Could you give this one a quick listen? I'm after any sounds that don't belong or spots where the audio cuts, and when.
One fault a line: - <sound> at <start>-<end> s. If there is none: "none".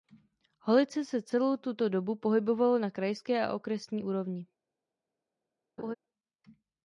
- laugh at 5.8-5.9 s